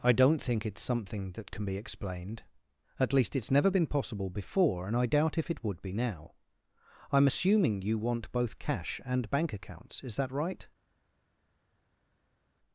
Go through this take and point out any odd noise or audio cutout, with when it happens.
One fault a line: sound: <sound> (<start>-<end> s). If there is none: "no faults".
no faults